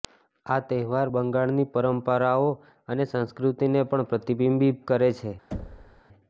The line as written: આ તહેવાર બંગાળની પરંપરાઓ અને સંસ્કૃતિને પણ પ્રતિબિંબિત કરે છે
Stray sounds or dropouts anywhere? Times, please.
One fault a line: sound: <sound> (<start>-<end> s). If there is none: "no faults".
sound: thud (5.5-6.0 s)